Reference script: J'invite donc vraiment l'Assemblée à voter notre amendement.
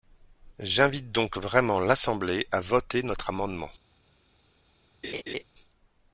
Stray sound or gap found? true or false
true